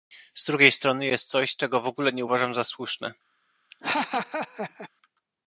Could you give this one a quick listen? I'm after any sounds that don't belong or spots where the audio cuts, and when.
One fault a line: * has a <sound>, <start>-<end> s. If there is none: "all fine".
* has a laugh, 3.7-4.9 s